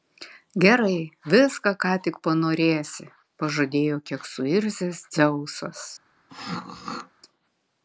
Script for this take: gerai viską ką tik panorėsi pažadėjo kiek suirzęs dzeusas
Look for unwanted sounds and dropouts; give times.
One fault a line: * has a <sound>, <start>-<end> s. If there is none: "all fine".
* has a throat clearing, 6.3-7.1 s